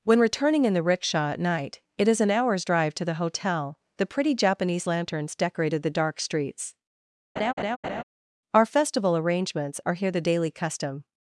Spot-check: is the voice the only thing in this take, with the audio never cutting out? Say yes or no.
no